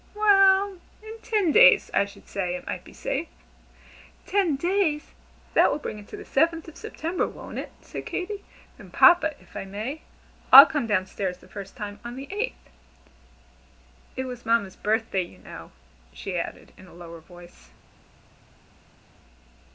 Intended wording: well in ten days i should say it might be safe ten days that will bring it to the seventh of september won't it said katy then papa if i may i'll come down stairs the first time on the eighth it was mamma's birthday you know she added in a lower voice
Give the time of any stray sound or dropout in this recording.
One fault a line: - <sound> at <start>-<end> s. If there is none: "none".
none